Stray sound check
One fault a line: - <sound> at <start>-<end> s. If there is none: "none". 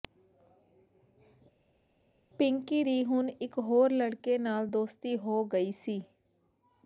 none